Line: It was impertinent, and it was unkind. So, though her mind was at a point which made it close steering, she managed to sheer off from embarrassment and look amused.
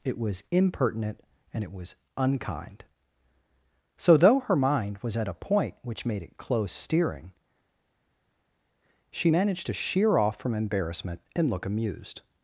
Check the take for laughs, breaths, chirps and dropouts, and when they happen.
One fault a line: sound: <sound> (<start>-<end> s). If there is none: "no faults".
no faults